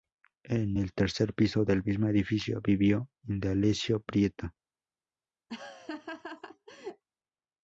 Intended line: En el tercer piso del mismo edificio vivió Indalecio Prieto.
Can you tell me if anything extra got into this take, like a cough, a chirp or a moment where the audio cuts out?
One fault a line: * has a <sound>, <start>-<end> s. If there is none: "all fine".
* has a laugh, 5.5-7.0 s